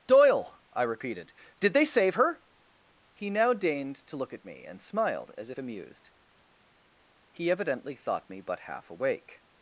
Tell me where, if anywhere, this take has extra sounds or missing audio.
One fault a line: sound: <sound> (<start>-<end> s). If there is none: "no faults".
no faults